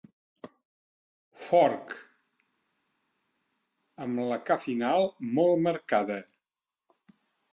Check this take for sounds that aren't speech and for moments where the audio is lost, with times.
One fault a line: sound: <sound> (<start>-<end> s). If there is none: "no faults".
no faults